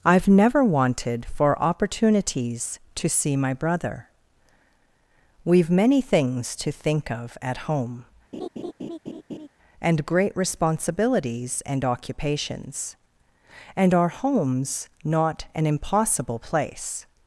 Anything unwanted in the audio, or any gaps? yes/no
yes